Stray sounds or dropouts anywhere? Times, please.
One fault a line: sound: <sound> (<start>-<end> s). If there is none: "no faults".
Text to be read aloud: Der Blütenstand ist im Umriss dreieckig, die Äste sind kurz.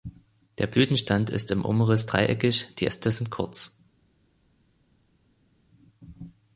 no faults